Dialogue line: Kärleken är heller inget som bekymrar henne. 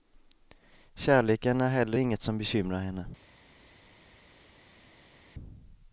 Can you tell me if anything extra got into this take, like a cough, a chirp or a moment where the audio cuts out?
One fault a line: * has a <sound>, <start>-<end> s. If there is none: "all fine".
all fine